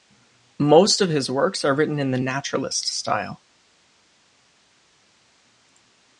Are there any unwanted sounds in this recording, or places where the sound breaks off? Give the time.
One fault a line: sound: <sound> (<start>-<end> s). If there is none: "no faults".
no faults